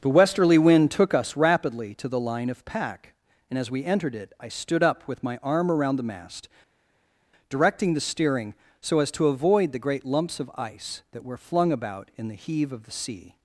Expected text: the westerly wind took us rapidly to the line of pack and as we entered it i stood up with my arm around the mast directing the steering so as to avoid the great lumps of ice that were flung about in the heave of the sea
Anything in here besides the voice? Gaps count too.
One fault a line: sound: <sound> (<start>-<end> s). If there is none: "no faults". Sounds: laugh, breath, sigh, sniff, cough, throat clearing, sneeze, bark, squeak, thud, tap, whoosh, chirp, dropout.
no faults